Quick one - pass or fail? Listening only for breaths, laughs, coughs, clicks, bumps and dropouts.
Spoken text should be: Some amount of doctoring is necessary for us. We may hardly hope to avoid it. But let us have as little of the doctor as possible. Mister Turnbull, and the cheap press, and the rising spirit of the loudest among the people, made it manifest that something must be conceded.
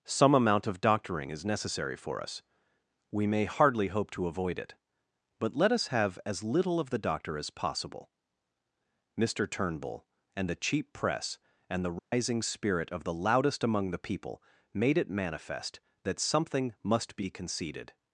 fail